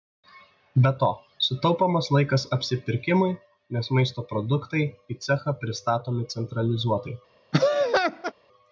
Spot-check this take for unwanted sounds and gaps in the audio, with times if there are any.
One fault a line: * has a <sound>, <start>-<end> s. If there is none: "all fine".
* has a laugh, 7.5-8.3 s